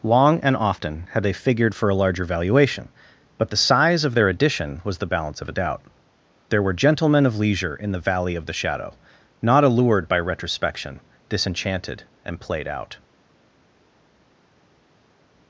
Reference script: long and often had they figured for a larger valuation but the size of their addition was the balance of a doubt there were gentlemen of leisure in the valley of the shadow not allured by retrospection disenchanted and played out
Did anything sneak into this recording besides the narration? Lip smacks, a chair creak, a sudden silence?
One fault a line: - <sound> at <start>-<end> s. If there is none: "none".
none